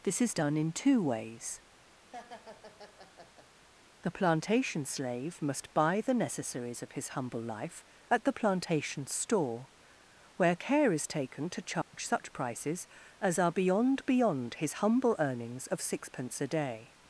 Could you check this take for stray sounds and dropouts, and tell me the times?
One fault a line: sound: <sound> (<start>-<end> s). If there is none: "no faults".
sound: laugh (2.1-3.5 s)
sound: dropout (11.8-11.9 s)